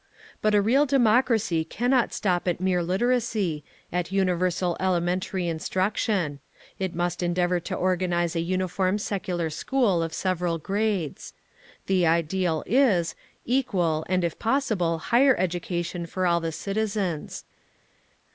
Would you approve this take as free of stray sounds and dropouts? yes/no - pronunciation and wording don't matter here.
yes